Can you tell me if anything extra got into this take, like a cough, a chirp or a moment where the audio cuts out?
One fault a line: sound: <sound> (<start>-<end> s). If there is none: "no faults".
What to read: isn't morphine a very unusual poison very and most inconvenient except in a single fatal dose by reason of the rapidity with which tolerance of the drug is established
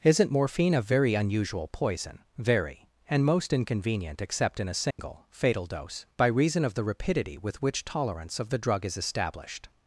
sound: dropout (4.9-5.0 s)